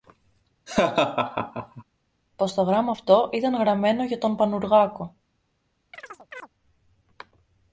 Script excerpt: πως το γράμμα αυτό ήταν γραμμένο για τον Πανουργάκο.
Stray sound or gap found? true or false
true